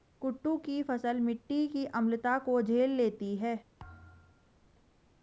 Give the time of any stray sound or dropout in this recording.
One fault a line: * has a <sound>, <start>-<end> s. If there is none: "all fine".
* has a thud, 3.8-4.6 s